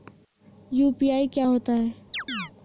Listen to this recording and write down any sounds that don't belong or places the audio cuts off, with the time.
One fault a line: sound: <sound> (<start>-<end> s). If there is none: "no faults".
sound: chirp (2.1-2.5 s)